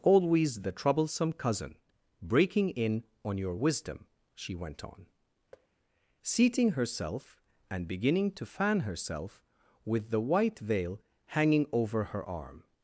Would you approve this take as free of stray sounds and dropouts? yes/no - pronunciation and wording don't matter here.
no